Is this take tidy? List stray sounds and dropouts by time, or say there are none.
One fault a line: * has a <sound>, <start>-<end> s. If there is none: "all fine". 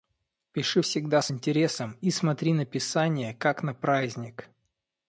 all fine